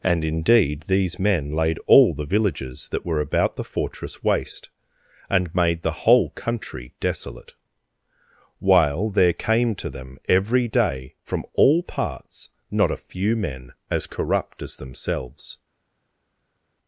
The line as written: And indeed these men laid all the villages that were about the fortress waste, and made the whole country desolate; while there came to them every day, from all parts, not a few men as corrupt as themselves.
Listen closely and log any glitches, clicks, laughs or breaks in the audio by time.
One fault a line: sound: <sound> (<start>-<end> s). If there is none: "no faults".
no faults